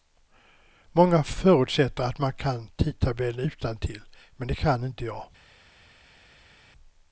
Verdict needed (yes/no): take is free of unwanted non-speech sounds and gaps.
yes